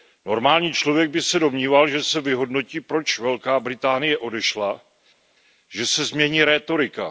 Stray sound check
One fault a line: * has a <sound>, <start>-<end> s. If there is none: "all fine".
all fine